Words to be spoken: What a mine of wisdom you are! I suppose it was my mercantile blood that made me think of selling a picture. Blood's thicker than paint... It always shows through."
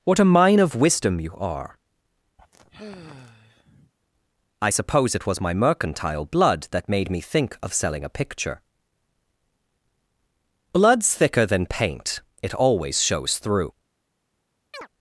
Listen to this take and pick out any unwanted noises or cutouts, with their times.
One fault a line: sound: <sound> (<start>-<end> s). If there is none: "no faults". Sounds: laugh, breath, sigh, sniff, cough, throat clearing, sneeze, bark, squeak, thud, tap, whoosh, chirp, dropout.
sound: sigh (2.4-3.9 s)
sound: chirp (14.7-14.9 s)